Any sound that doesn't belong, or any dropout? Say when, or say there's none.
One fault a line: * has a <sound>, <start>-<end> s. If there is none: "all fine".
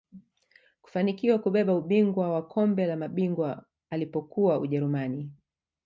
all fine